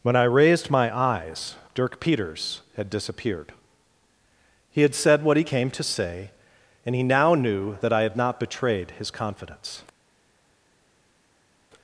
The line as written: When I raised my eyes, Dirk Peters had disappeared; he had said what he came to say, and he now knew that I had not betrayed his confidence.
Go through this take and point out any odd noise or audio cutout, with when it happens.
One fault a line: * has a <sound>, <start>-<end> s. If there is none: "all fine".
all fine